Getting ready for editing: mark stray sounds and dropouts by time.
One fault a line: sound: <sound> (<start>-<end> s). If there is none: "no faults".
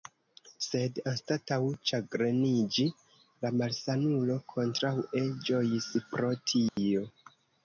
sound: dropout (6.7-6.8 s)